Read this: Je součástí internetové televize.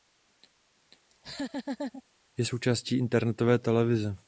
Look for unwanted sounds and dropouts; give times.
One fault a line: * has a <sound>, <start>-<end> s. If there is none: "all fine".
* has a laugh, 1.1-2.0 s